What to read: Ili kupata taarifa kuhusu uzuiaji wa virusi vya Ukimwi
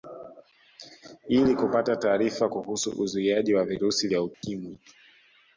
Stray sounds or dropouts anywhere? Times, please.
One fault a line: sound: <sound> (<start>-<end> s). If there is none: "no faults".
sound: dropout (4.3-4.4 s)